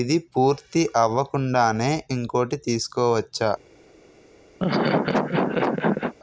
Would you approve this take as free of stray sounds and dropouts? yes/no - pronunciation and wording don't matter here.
no